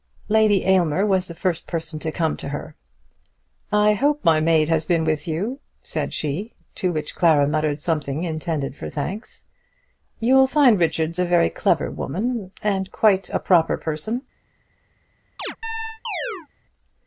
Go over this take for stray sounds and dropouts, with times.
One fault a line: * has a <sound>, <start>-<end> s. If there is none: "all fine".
* has a chirp, 15.4-16.5 s